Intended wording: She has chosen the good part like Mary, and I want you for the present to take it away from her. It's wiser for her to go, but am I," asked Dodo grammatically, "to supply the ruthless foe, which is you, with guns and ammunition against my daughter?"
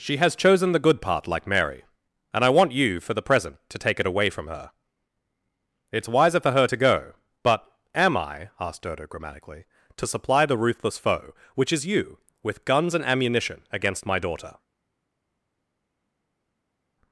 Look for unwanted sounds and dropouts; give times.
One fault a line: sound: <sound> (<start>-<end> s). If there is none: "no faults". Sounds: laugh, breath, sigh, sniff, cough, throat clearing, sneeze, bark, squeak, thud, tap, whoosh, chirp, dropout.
no faults